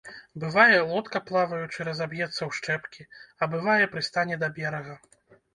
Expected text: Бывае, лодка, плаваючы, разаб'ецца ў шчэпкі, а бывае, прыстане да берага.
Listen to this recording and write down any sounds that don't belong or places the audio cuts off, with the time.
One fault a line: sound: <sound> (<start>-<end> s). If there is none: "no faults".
no faults